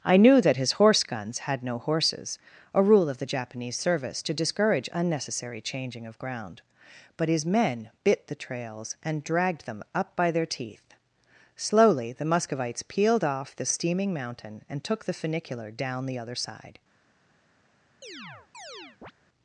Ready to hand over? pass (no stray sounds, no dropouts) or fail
fail